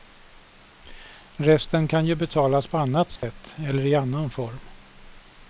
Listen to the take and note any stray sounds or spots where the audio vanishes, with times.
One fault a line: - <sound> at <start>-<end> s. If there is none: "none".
- dropout at 3.2-3.2 s